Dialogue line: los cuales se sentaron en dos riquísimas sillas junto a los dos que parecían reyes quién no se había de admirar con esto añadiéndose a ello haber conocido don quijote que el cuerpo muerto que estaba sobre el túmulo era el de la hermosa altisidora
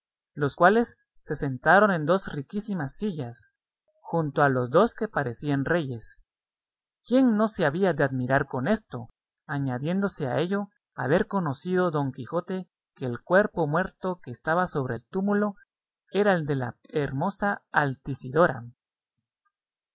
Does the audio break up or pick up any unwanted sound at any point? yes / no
no